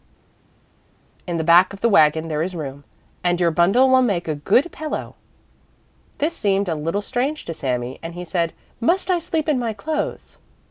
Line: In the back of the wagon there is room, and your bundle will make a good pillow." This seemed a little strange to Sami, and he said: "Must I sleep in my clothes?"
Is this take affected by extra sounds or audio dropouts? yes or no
no